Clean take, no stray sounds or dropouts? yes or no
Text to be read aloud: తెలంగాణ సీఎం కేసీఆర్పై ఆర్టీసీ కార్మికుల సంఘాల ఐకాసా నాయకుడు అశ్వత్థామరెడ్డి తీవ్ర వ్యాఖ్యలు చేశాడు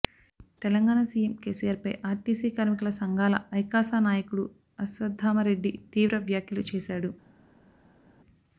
yes